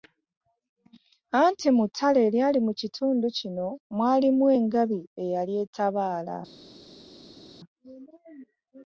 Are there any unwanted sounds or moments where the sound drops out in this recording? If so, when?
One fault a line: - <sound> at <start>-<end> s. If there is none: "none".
none